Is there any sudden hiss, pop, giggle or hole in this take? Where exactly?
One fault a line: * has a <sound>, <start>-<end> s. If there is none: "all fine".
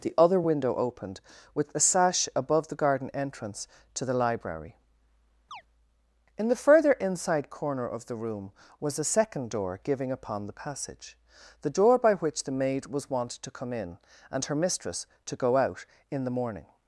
* has a chirp, 5.5-5.6 s